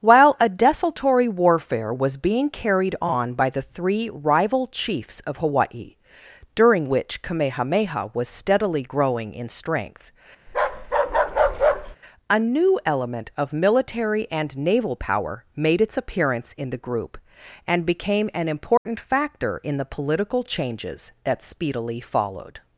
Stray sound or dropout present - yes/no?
yes